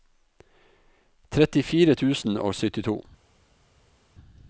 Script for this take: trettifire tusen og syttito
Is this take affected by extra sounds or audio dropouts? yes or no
no